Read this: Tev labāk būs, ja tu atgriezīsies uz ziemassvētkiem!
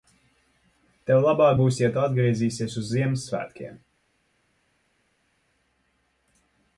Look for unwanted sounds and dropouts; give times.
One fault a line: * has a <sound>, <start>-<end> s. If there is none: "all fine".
all fine